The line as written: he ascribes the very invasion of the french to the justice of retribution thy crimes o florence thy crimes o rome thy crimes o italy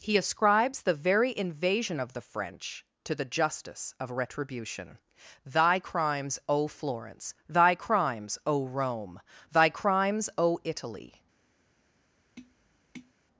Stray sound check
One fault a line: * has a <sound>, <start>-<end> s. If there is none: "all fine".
* has a tap, 12.4-13.1 s